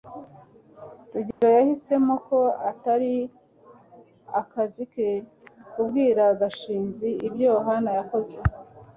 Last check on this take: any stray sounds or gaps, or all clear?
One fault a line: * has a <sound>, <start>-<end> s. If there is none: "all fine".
* has a dropout, 1.3-1.4 s